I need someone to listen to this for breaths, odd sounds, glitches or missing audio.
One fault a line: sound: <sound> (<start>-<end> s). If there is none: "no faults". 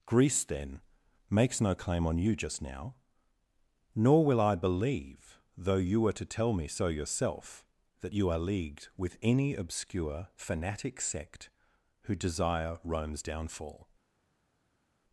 no faults